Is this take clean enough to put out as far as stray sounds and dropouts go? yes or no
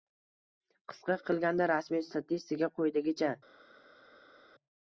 yes